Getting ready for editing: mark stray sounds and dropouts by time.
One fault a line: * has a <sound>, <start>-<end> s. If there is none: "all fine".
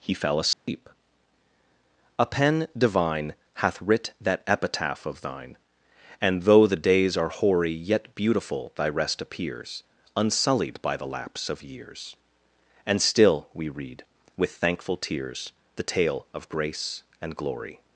* has a dropout, 0.5-0.7 s